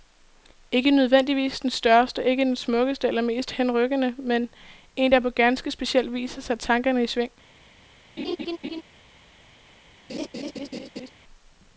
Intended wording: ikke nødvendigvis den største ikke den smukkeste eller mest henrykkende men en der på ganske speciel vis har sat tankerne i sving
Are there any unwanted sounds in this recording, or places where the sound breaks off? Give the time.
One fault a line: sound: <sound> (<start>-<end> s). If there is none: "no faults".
sound: laugh (8.2-8.8 s)
sound: laugh (10.1-11.1 s)